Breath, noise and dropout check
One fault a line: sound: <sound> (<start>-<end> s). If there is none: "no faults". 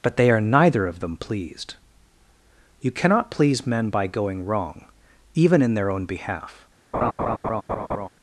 sound: laugh (6.9-8.1 s)